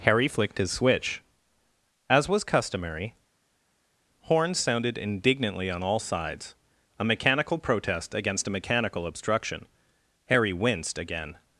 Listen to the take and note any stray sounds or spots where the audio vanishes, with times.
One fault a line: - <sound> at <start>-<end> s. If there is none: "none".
none